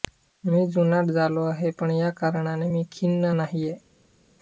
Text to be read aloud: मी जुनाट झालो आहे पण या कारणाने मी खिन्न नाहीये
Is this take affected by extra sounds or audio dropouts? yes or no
no